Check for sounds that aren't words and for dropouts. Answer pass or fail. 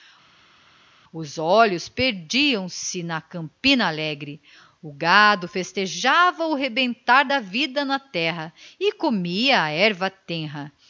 pass